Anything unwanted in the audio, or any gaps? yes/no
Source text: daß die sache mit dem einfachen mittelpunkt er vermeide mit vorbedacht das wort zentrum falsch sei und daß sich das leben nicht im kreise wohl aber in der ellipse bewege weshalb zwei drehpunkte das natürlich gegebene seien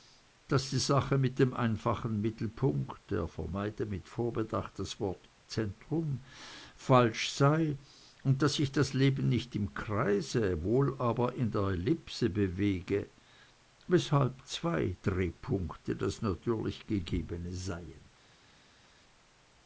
no